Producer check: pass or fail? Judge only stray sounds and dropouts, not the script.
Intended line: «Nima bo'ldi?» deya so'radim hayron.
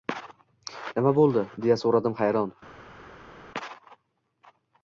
pass